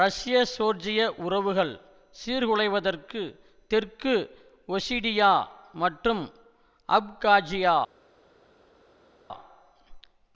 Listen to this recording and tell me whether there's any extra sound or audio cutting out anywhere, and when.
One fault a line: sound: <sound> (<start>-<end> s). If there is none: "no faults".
no faults